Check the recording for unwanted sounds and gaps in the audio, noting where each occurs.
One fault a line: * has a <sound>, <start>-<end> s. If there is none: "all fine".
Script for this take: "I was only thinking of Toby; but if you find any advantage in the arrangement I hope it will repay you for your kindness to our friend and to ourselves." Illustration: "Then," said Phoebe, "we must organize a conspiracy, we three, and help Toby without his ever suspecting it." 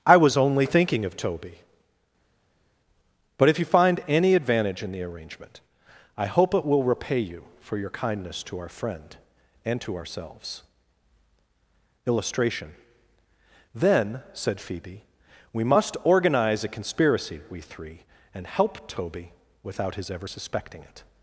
all fine